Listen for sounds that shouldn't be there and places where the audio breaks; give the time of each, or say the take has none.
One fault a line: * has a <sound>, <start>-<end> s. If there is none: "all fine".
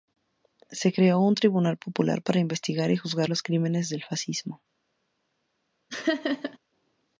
* has a laugh, 5.9-6.6 s